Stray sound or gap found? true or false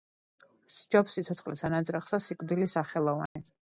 true